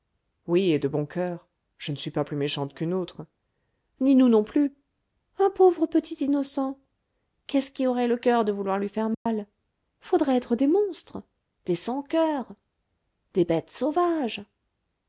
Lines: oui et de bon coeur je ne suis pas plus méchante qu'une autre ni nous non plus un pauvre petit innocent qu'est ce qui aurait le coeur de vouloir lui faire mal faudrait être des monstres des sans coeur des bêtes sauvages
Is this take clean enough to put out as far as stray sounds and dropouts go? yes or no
no